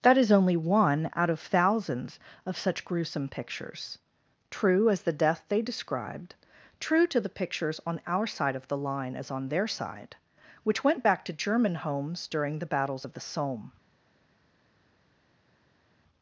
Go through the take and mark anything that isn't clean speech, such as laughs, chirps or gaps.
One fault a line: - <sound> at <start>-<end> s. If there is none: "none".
none